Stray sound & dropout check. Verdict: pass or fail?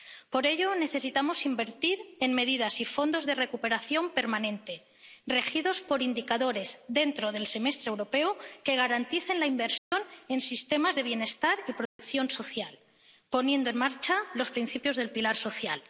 fail